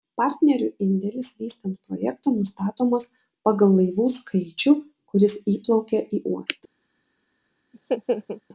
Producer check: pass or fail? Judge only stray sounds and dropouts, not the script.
fail